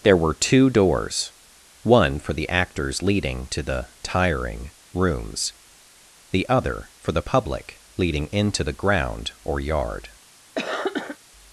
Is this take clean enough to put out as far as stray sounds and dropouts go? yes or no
no